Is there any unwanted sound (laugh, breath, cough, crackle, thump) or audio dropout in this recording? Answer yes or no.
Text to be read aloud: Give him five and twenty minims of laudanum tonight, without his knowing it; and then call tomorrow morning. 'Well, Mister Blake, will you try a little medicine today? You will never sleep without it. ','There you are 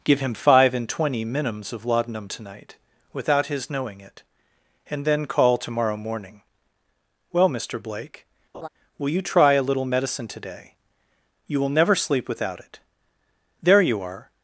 yes